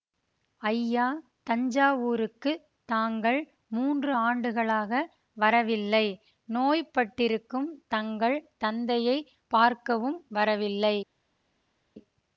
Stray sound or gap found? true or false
false